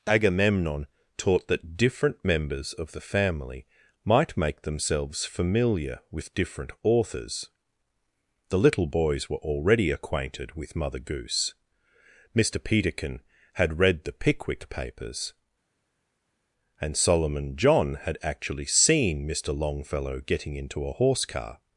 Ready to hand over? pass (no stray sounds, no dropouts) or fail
pass